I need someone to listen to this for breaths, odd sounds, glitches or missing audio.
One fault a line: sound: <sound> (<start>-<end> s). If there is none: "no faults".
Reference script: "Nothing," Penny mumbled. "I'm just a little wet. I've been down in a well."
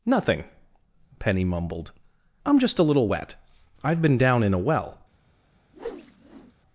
sound: whoosh (5.7-6.5 s)